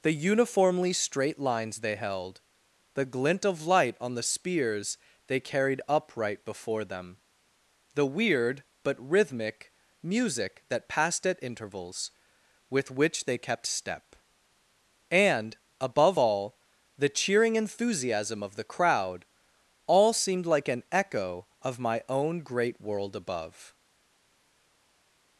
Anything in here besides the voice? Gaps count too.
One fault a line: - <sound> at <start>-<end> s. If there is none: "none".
none